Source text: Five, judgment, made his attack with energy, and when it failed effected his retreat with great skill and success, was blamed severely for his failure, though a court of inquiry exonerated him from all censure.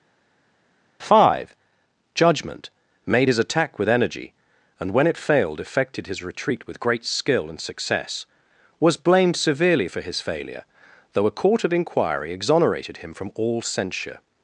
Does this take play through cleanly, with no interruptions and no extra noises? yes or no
yes